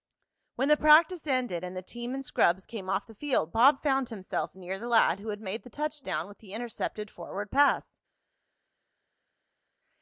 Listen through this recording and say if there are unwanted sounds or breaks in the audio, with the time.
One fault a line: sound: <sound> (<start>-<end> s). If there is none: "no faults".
no faults